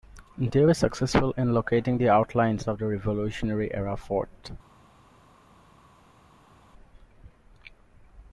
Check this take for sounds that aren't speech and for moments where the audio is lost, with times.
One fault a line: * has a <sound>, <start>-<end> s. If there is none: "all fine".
all fine